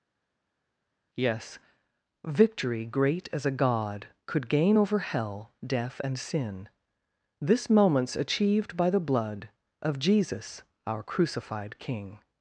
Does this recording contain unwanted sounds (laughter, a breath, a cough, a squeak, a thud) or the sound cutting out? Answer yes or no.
no